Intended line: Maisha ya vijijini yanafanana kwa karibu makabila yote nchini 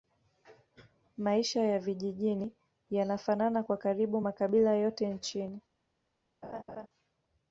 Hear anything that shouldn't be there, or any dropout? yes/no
yes